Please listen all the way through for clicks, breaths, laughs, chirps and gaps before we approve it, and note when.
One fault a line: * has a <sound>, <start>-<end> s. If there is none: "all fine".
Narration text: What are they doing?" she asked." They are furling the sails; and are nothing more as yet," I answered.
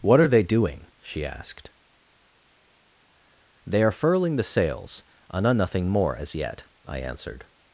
all fine